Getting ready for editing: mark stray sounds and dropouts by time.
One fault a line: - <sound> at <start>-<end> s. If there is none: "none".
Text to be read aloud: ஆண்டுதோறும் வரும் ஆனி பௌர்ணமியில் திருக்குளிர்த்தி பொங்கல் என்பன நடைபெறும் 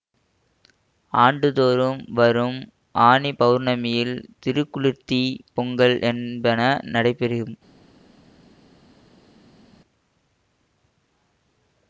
none